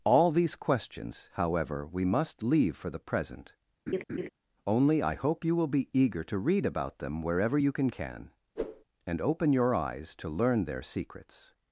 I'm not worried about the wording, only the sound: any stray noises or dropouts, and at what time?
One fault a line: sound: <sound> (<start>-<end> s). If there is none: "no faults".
sound: laugh (3.9-4.3 s)
sound: whoosh (8.6-8.8 s)